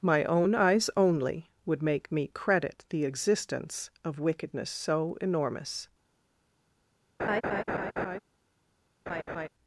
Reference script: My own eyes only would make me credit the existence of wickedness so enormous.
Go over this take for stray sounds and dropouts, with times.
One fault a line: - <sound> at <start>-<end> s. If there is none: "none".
- laugh at 7.2-8.2 s
- laugh at 9.1-9.5 s